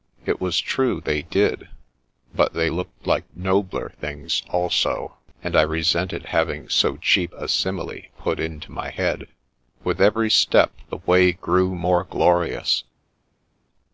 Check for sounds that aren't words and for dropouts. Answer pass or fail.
pass